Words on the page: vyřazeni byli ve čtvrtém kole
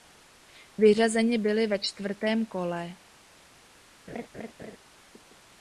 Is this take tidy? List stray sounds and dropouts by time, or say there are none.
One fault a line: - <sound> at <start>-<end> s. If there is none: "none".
- laugh at 4.1-4.8 s